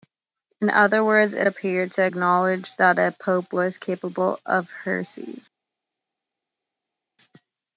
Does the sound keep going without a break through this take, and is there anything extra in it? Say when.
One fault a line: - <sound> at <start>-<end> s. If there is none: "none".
none